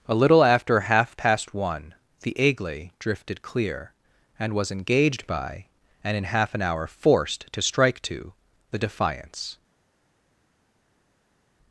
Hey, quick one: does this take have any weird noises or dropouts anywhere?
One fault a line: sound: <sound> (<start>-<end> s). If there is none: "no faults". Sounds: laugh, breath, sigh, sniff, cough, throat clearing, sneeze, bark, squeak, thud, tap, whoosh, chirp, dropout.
no faults